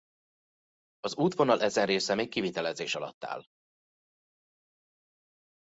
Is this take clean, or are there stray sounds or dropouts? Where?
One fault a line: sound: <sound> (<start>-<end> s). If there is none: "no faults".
no faults